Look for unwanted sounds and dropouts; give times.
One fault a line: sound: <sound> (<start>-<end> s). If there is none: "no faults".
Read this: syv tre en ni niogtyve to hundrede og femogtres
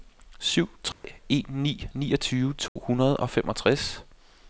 sound: dropout (0.9-1.0 s)
sound: dropout (2.7-2.8 s)